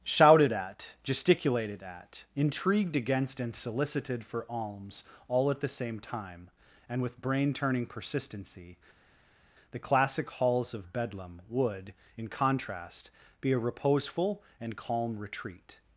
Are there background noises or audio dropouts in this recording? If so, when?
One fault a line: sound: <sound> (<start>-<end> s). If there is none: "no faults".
no faults